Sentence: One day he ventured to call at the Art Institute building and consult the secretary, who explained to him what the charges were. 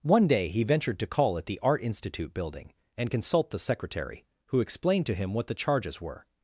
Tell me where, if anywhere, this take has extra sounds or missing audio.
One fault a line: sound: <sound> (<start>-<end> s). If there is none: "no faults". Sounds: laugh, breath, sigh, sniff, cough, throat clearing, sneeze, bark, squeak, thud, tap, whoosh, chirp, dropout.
no faults